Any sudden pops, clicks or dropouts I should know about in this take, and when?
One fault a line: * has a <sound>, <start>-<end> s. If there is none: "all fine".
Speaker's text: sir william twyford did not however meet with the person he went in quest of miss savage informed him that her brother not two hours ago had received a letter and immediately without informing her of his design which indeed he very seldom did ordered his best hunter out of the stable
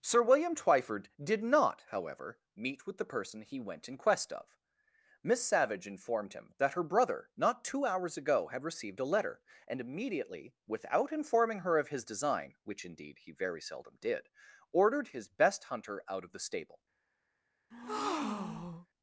* has a breath, 17.7-18.9 s